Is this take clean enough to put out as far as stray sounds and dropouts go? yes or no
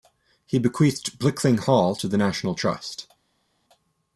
yes